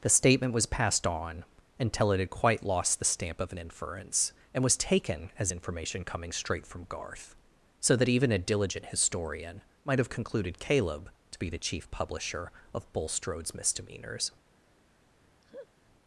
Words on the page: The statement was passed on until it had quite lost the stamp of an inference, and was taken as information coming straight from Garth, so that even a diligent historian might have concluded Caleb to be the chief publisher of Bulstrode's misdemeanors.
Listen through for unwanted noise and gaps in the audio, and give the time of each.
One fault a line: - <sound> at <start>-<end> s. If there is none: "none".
- laugh at 15.4-15.7 s